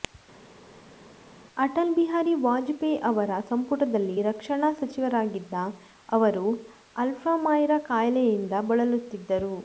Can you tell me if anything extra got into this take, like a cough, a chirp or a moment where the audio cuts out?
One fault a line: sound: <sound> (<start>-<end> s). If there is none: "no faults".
no faults